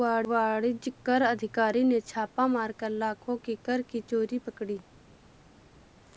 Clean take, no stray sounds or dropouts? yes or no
yes